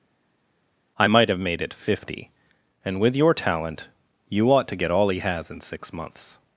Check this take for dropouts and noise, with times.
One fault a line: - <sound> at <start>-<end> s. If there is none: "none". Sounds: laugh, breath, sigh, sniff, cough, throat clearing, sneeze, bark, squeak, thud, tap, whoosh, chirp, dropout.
none